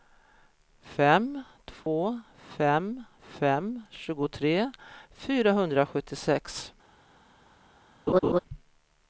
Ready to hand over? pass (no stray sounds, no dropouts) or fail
fail